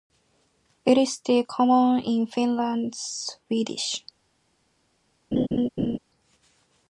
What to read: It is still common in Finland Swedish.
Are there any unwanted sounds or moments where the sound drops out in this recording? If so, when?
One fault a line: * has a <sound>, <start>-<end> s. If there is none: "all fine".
* has a laugh, 5.3-6.0 s